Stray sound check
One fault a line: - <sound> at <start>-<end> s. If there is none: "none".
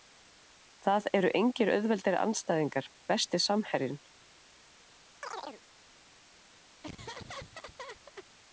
- chirp at 5.2-5.6 s
- laugh at 6.8-8.3 s